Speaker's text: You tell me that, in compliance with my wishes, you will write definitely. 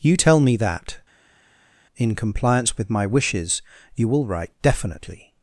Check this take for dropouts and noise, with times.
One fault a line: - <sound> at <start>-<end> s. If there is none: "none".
none